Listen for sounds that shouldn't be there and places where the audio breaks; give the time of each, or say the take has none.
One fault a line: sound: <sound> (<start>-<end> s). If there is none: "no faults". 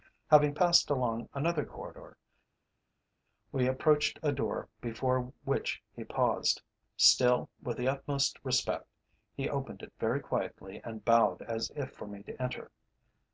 no faults